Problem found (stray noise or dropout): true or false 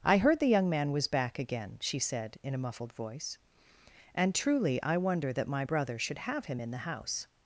false